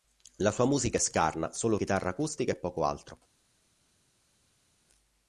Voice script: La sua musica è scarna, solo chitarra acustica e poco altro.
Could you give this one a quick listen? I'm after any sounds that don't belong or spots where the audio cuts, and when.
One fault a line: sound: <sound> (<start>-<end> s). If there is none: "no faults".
no faults